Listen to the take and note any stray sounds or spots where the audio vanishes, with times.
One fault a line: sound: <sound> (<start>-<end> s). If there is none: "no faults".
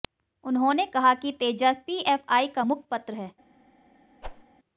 sound: whoosh (4.2-4.4 s)